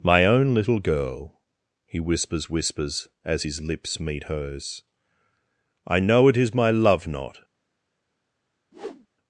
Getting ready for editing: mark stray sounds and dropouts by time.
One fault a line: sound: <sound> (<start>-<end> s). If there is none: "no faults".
sound: whoosh (8.7-9.1 s)